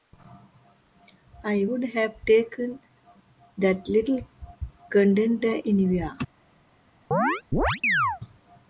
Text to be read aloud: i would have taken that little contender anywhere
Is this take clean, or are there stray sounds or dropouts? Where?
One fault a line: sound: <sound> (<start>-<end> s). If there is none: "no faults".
sound: chirp (7.1-8.2 s)